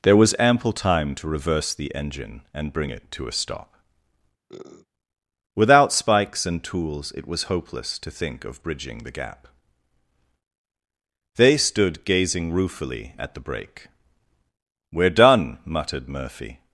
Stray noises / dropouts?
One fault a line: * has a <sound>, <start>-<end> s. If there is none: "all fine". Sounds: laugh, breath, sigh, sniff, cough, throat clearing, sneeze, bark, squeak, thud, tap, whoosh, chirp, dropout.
* has a sniff, 4.5-4.9 s